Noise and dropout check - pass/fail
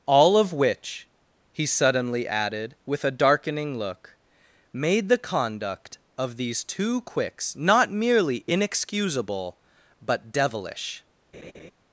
fail